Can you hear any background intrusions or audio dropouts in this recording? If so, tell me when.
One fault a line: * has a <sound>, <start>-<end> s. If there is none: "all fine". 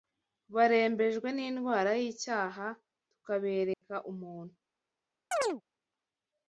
* has a dropout, 3.7-3.8 s
* has a chirp, 5.3-5.6 s